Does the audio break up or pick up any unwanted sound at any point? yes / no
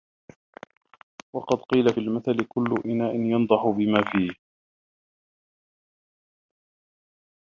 no